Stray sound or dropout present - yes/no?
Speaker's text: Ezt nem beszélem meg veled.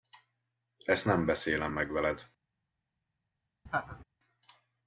yes